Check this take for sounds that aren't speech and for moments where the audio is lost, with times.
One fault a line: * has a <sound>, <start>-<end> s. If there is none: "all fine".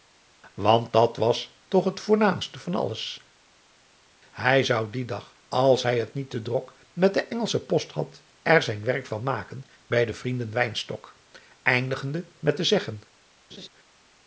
* has a laugh, 13.5-13.7 s